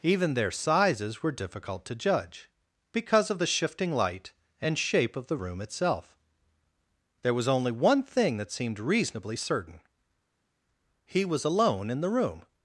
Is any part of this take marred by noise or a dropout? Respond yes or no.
no